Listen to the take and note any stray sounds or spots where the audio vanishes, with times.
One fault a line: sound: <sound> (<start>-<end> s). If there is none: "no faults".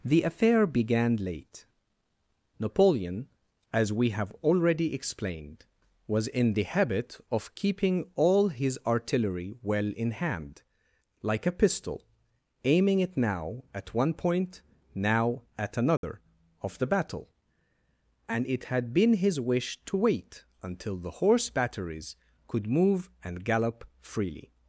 sound: dropout (16.0-16.0 s)